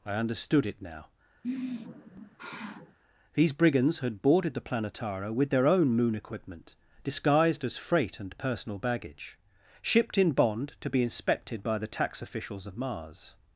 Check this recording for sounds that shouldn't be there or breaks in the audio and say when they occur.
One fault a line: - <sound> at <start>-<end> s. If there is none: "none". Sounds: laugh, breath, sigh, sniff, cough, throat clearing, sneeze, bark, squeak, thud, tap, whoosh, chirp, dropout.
- sigh at 1.4-3.0 s